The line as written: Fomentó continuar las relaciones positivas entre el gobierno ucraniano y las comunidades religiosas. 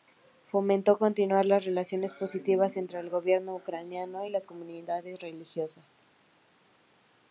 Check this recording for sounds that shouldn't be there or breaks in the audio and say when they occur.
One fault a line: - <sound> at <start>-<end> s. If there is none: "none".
none